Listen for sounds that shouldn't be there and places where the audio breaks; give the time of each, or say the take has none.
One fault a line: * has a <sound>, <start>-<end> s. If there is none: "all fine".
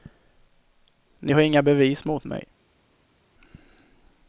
all fine